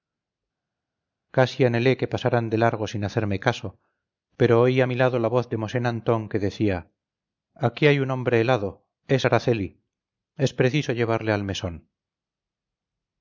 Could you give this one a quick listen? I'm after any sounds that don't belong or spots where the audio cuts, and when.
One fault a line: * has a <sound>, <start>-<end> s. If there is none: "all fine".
all fine